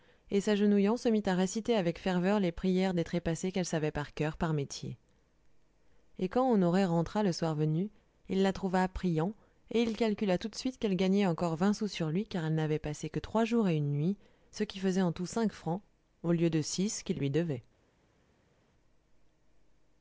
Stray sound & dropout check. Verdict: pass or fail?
pass